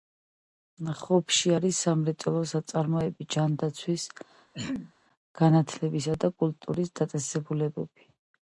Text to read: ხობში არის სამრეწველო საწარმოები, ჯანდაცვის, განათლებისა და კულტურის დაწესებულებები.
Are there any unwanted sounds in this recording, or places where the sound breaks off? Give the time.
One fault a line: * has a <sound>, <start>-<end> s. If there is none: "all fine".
* has a throat clearing, 4.5-4.9 s